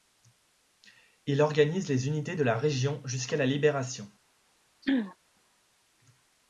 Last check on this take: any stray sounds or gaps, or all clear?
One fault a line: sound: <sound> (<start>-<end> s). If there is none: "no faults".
sound: throat clearing (4.8-5.2 s)